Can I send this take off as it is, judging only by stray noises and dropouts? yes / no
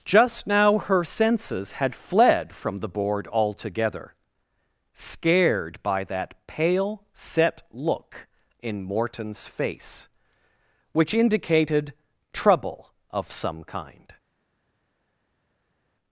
yes